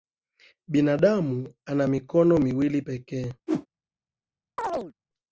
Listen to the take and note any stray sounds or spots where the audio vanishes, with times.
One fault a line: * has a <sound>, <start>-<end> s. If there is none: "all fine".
* has a whoosh, 3.5-3.7 s
* has a chirp, 4.6-4.9 s